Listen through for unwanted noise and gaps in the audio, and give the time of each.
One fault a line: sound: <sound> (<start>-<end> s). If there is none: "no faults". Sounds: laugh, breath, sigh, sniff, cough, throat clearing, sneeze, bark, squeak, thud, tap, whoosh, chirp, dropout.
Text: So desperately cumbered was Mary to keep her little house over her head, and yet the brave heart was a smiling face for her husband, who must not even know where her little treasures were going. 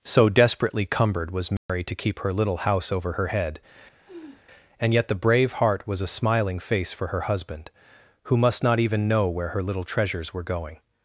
sound: dropout (1.6-1.7 s)
sound: sniff (4.0-4.5 s)